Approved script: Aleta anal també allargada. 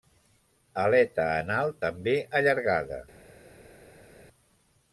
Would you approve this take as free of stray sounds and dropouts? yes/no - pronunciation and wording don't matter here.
yes